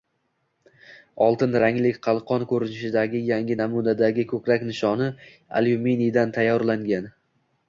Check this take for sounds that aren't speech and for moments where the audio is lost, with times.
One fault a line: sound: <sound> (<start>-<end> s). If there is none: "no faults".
no faults